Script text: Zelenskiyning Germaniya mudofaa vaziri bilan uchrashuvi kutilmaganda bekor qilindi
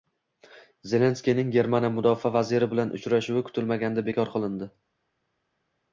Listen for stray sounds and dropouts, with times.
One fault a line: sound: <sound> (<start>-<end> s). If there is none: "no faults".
no faults